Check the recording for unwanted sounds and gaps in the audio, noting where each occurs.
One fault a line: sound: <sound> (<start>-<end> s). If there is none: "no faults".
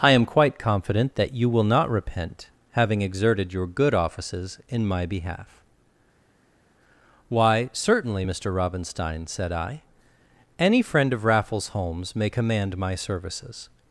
no faults